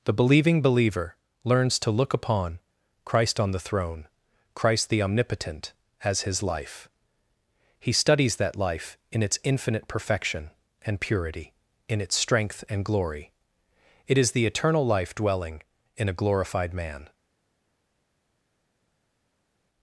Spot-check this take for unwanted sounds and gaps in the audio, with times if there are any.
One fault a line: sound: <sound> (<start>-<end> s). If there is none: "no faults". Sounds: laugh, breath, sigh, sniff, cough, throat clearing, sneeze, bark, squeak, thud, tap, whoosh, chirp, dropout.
no faults